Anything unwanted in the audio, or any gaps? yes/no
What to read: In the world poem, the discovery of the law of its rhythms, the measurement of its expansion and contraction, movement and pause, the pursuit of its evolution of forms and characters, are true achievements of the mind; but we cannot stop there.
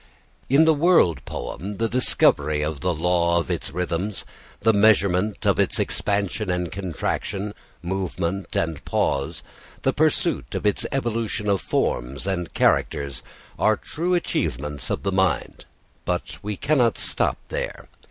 no